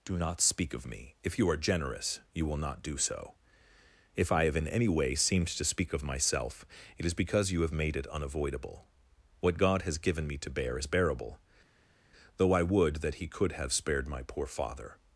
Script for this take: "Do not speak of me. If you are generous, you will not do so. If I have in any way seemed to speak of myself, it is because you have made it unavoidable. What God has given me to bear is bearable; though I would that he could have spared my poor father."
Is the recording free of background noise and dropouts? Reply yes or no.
yes